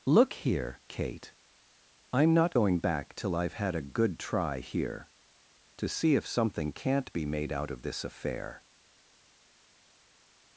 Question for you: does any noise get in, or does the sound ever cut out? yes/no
no